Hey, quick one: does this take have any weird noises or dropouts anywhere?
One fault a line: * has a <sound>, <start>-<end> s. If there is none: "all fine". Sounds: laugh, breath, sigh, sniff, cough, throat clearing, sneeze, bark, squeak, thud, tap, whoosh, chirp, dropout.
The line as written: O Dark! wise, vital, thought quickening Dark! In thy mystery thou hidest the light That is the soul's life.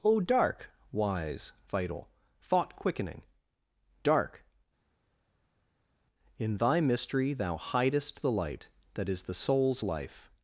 all fine